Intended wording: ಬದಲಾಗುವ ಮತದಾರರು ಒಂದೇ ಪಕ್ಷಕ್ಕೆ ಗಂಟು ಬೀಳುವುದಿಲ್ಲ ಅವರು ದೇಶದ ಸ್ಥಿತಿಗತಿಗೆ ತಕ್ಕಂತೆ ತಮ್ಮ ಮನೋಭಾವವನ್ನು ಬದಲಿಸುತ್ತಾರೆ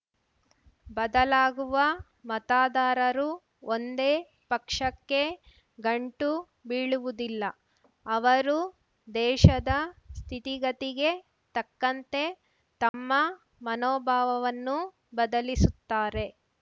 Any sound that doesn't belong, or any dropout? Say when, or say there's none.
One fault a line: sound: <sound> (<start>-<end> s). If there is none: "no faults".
sound: dropout (12.9-12.9 s)